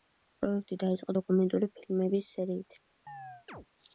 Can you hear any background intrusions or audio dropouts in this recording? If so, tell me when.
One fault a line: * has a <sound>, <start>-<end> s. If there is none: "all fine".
* has a chirp, 3.1-3.7 s